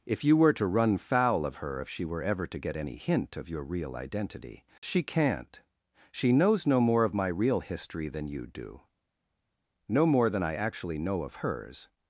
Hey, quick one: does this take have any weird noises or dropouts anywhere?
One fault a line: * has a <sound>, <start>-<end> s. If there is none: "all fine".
all fine